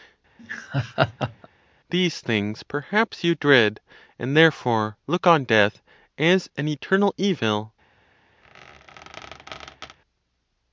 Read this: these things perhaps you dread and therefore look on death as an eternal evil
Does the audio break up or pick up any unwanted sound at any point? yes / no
yes